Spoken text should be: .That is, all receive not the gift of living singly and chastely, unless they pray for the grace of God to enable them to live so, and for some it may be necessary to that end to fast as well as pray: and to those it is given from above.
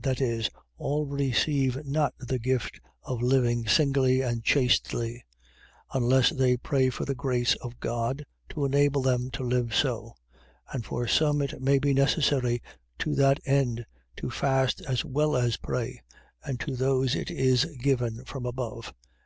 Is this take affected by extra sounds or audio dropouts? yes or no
no